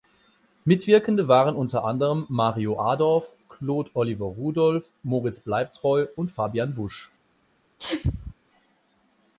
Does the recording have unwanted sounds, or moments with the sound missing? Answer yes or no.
yes